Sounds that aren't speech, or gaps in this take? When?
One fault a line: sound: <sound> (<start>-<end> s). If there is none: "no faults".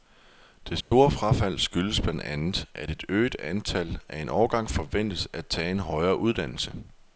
sound: dropout (0.8-0.9 s)